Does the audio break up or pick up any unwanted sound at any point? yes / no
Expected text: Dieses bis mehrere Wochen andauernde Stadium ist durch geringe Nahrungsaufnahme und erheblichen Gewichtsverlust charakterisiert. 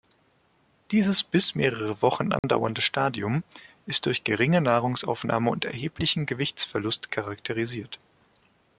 yes